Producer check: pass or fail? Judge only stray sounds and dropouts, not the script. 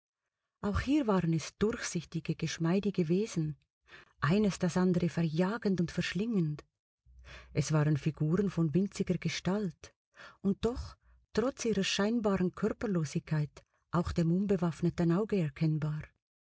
pass